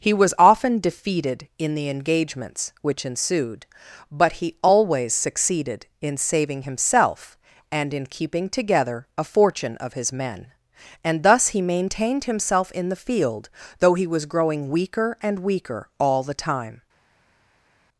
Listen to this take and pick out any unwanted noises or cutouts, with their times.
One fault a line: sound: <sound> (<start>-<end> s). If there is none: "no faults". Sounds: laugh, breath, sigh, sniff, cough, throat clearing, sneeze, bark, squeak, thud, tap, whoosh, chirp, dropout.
no faults